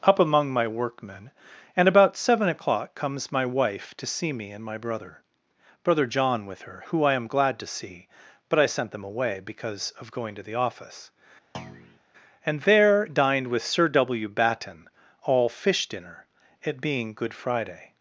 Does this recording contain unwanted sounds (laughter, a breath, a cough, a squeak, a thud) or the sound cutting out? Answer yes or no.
yes